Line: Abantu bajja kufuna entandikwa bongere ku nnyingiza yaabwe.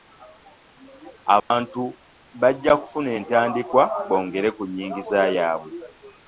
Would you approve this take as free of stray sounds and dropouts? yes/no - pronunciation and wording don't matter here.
no